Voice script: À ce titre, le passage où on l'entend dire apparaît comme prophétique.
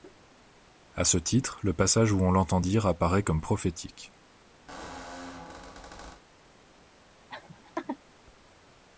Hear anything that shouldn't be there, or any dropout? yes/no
yes